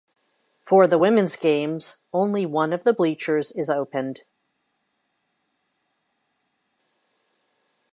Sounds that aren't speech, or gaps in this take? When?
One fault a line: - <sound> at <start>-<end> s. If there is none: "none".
none